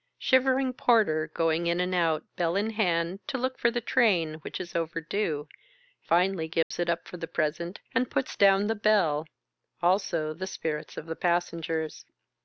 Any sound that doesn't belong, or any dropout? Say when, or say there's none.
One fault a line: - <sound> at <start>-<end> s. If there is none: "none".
- dropout at 6.6-6.7 s